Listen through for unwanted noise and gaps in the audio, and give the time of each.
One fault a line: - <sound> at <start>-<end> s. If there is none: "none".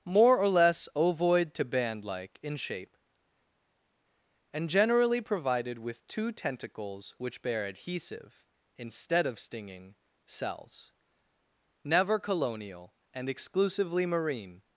none